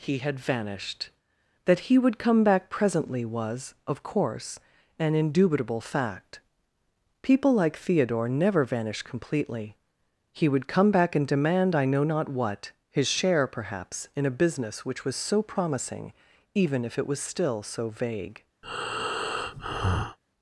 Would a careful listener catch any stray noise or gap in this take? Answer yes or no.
yes